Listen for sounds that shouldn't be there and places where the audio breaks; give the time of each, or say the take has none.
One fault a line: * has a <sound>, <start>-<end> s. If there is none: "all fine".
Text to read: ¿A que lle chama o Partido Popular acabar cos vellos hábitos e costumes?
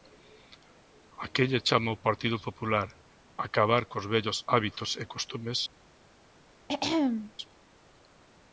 * has a throat clearing, 6.7-7.3 s